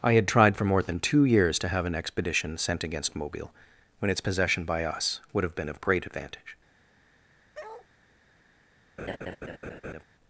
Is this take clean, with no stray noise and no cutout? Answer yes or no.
no